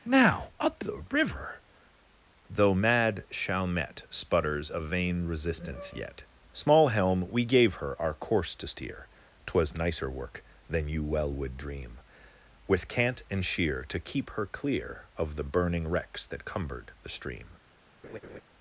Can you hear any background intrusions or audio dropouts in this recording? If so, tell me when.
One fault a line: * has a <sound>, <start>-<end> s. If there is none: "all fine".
* has a laugh, 18.0-18.4 s